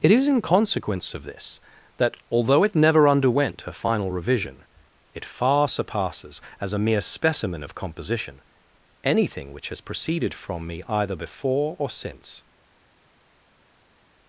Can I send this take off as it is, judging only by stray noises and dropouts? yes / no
yes